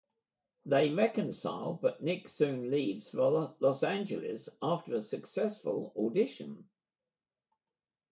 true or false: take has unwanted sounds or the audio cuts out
false